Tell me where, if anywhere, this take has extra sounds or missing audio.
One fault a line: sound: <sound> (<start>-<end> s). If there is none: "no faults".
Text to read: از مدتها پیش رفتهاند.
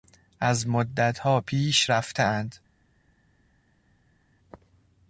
no faults